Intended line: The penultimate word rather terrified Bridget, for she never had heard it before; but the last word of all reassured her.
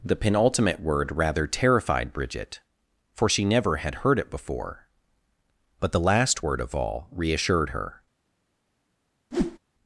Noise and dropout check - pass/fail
fail